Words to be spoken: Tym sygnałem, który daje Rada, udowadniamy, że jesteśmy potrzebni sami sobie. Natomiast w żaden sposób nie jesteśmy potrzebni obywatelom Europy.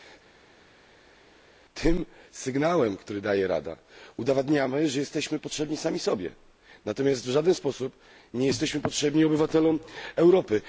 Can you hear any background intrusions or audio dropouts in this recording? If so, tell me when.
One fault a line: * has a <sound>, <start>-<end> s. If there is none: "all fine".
all fine